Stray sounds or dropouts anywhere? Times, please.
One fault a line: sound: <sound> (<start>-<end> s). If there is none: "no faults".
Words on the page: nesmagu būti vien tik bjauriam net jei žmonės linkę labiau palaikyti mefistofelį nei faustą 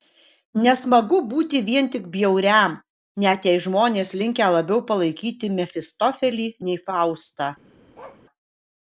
sound: bark (7.9-8.2 s)